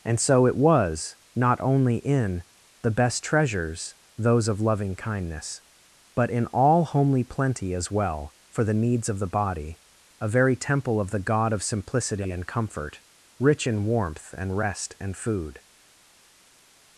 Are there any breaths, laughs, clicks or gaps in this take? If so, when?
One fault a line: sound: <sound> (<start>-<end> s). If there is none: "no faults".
no faults